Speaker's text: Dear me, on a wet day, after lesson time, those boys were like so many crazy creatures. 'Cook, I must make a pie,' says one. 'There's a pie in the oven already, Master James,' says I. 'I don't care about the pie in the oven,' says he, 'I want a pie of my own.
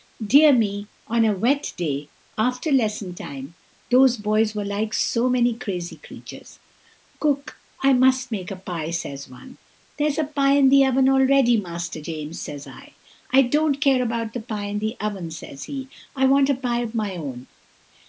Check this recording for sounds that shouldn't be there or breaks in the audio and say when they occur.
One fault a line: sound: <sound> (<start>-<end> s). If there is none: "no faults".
no faults